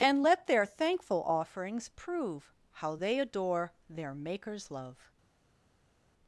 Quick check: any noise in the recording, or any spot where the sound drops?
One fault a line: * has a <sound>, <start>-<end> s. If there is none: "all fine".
all fine